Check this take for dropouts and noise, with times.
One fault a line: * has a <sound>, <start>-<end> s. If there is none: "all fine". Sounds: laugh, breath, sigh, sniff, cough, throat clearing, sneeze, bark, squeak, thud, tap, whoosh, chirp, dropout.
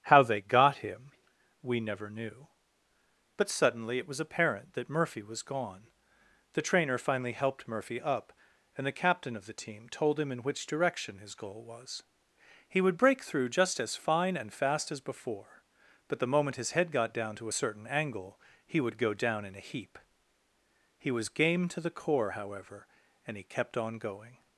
all fine